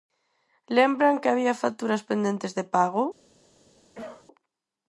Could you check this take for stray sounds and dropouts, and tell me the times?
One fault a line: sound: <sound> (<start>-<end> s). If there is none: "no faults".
sound: cough (3.9-4.3 s)